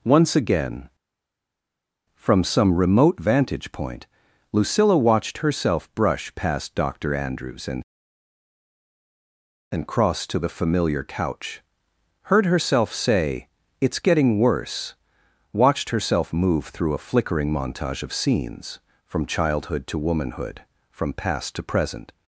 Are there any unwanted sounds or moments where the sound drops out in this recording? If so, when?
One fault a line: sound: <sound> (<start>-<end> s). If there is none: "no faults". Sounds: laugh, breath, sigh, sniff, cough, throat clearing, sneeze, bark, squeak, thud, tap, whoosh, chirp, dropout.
no faults